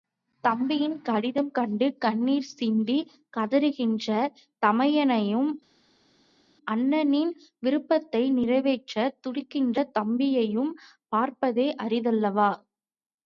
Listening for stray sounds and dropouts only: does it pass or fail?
pass